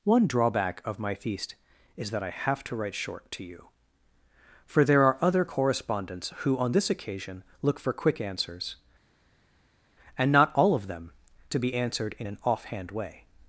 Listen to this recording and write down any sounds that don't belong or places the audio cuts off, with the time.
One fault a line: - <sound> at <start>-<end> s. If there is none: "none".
none